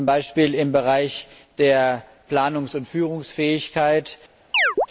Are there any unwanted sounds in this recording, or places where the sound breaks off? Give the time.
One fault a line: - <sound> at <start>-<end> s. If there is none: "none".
- chirp at 4.5-4.9 s